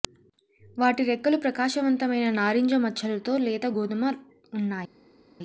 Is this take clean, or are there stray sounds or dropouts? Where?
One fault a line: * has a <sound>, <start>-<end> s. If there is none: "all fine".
all fine